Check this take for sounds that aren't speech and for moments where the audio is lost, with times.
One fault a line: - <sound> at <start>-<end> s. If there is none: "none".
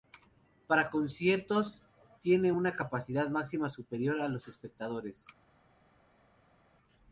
none